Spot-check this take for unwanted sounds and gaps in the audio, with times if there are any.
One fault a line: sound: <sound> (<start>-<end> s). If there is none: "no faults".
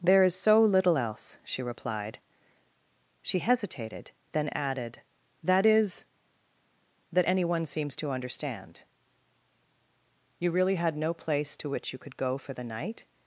no faults